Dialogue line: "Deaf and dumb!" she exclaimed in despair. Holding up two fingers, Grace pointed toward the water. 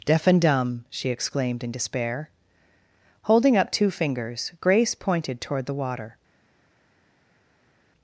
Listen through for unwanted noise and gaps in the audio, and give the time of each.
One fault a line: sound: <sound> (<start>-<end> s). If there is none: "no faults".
no faults